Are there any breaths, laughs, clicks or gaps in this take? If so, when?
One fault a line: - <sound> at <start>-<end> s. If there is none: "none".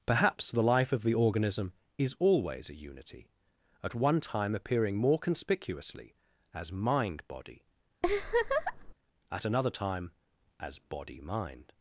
- laugh at 8.0-8.9 s